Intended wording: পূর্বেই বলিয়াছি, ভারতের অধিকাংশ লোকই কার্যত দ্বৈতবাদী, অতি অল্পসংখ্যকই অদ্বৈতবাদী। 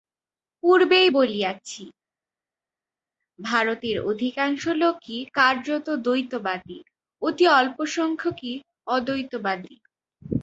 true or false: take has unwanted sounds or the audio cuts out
false